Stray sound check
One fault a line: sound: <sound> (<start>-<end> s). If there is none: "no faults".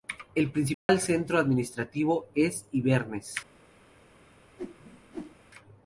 sound: dropout (0.7-0.9 s)
sound: whoosh (4.6-5.4 s)